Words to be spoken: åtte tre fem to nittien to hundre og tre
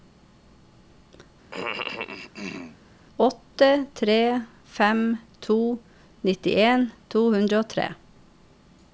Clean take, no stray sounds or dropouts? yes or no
no